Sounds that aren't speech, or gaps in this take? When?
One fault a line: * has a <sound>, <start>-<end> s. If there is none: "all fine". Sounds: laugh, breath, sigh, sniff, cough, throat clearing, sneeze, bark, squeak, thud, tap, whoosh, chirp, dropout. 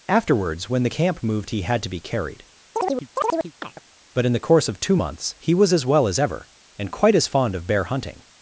* has a chirp, 2.7-3.8 s